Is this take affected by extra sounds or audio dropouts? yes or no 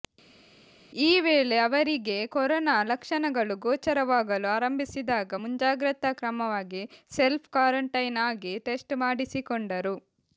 no